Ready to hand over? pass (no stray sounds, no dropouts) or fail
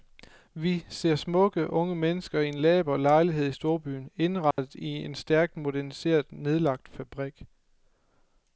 fail